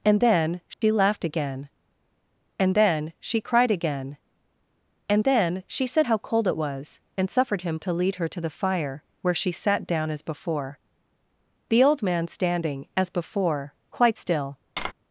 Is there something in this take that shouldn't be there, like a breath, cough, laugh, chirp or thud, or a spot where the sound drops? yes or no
yes